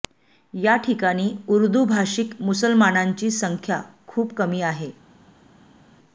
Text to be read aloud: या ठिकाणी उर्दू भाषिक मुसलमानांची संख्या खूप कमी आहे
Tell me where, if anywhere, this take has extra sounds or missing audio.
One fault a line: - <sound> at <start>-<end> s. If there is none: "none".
none